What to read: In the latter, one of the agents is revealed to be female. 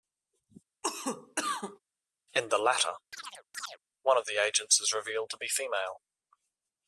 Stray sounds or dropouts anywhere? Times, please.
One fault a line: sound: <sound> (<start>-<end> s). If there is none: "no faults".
sound: cough (0.8-1.8 s)
sound: chirp (3.1-3.8 s)